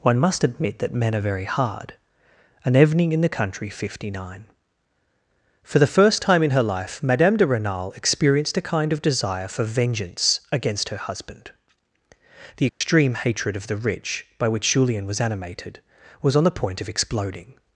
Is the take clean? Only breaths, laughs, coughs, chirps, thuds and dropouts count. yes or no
no